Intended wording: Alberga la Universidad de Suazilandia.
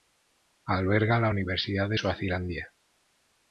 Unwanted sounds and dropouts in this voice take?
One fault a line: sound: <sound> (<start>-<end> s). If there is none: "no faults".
no faults